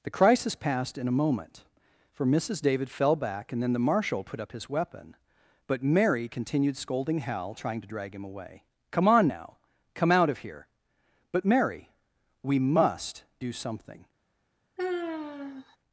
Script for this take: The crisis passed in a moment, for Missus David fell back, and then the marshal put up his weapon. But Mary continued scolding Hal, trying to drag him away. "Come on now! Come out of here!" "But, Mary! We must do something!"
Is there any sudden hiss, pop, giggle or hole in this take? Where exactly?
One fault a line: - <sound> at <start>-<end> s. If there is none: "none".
- sigh at 14.8-15.8 s